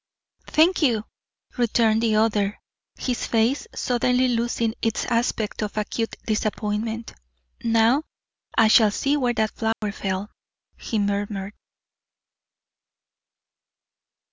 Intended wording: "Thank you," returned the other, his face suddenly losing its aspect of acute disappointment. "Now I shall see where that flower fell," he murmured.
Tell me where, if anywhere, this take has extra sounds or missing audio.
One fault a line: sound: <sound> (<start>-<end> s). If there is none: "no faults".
sound: dropout (9.7-9.8 s)